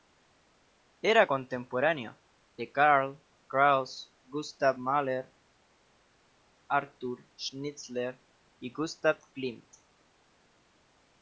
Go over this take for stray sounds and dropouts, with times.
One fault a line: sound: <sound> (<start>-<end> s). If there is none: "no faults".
no faults